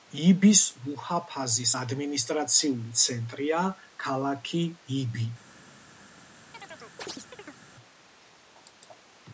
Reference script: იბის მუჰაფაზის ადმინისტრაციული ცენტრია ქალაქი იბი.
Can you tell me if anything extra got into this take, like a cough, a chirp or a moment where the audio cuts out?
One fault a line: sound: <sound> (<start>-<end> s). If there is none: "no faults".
sound: chirp (6.5-7.6 s)